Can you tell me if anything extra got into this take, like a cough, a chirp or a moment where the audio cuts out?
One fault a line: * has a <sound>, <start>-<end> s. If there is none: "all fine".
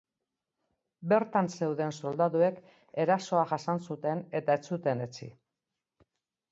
all fine